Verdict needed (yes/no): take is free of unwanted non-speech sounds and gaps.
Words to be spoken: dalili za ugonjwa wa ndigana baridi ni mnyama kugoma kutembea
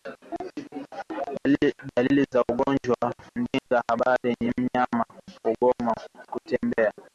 no